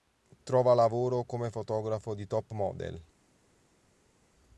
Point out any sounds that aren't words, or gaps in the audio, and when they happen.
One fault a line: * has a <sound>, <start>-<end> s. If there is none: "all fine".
all fine